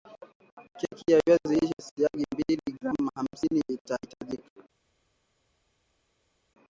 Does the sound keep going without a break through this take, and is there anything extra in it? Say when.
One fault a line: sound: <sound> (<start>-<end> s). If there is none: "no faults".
no faults